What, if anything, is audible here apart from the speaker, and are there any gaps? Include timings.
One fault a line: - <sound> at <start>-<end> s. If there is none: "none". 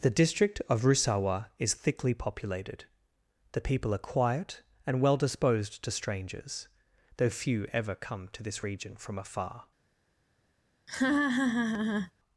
- laugh at 10.9-12.1 s